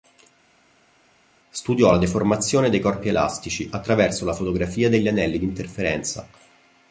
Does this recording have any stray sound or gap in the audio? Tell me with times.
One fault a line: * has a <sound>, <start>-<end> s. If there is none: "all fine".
all fine